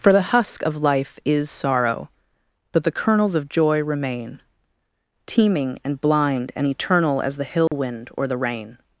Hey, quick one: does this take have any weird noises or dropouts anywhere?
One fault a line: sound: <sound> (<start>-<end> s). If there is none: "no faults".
sound: dropout (7.7-7.7 s)